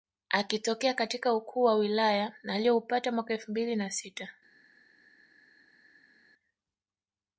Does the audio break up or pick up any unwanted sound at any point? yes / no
no